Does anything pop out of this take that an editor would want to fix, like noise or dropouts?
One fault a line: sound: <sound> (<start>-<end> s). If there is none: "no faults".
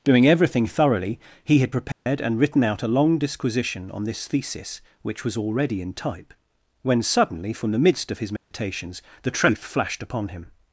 sound: dropout (1.9-2.1 s)
sound: dropout (8.4-8.5 s)